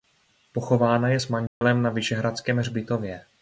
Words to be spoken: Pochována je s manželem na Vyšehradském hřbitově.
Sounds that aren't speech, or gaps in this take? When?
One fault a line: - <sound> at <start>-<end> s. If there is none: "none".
- dropout at 1.5-1.6 s